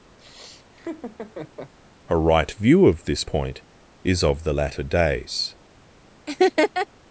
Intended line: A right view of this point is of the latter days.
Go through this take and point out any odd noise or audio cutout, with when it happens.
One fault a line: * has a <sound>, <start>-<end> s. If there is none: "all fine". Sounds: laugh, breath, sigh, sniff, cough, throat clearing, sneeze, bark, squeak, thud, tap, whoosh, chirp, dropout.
* has a laugh, 0.2-1.7 s
* has a laugh, 6.3-6.9 s